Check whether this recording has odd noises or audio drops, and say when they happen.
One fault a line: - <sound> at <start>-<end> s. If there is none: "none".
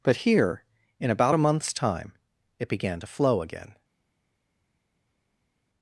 none